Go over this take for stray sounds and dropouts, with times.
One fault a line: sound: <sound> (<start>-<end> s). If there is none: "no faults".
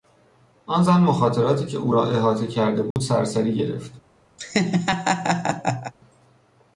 sound: dropout (2.9-3.0 s)
sound: laugh (4.4-5.9 s)